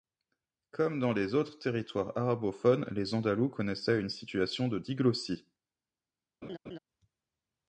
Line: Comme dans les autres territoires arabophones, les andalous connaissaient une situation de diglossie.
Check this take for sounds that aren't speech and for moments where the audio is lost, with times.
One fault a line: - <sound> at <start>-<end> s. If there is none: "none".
- laugh at 6.4-6.8 s